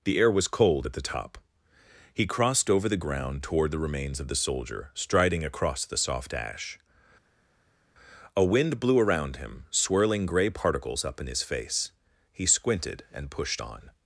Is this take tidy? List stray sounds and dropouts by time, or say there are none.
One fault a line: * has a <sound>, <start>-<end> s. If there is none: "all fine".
all fine